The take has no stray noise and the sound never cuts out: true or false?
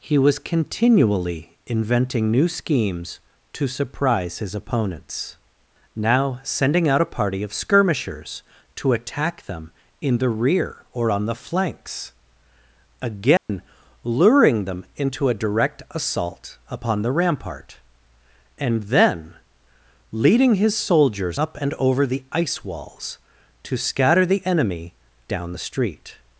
false